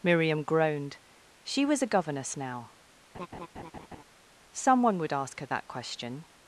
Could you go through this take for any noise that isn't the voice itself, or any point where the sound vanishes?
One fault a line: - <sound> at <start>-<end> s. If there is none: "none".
- laugh at 3.1-4.0 s